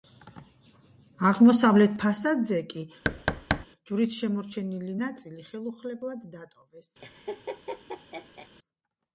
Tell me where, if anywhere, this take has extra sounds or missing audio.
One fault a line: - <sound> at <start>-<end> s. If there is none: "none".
- thud at 3.0-3.7 s
- laugh at 7.0-8.5 s